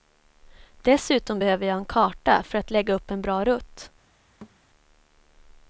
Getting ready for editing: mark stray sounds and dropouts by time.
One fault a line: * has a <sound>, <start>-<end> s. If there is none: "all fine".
* has a thud, 4.4-4.6 s